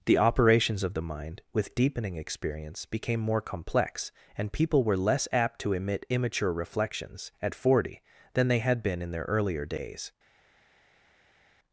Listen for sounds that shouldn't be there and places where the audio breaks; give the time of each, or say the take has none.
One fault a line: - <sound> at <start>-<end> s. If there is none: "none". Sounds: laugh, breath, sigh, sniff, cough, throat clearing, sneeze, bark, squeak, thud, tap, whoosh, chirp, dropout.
none